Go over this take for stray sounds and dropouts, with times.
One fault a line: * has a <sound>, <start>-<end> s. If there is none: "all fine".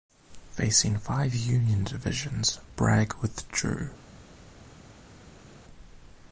all fine